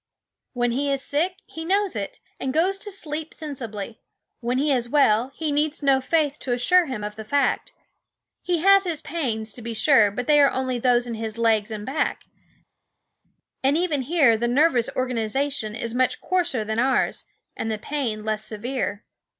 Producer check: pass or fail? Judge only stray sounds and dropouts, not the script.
pass